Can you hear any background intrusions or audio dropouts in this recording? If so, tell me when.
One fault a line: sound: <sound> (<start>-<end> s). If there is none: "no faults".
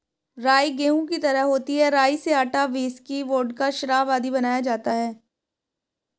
no faults